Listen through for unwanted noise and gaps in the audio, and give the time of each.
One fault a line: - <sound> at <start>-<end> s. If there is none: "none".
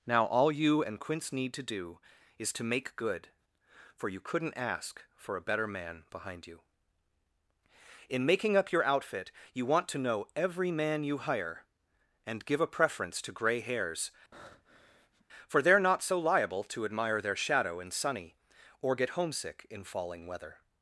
- breath at 14.3-15.3 s